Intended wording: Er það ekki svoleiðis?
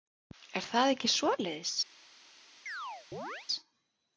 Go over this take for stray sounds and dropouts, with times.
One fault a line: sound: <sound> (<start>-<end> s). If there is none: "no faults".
sound: chirp (2.7-3.5 s)